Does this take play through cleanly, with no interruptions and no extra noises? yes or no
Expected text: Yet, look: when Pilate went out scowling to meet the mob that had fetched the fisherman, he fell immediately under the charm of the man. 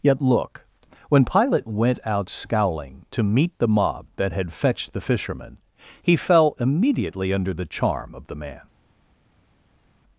yes